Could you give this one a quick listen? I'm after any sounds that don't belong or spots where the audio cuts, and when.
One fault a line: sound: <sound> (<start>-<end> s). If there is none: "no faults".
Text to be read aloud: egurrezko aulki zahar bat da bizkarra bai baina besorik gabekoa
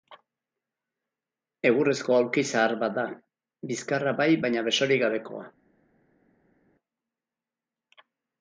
no faults